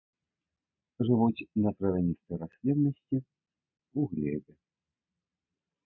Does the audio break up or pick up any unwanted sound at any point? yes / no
no